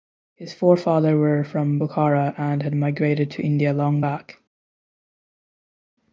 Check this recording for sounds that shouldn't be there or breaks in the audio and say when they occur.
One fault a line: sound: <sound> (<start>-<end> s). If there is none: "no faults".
no faults